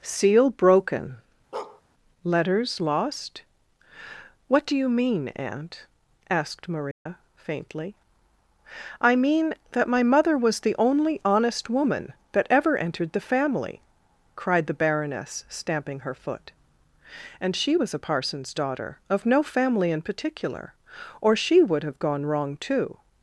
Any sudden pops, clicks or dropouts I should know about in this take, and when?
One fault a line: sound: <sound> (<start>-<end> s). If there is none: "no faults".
sound: bark (1.5-1.8 s)
sound: dropout (6.9-7.1 s)